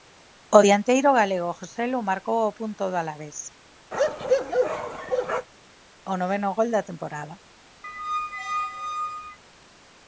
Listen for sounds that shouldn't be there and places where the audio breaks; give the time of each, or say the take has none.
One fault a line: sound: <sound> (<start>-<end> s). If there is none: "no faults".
sound: bark (3.9-5.5 s)
sound: squeak (7.8-9.4 s)